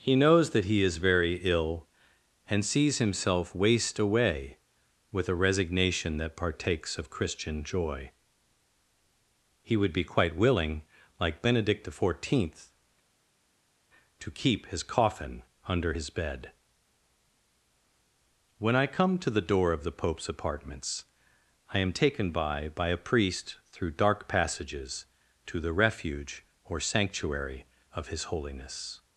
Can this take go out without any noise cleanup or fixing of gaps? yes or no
yes